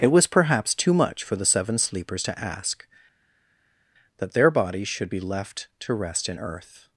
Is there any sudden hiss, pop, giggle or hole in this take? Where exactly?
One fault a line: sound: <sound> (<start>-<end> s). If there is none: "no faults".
no faults